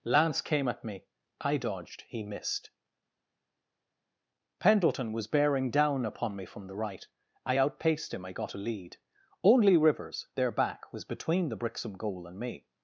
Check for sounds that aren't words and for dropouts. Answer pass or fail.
pass